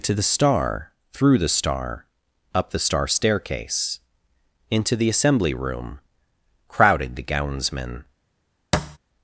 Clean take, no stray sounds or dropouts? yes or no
no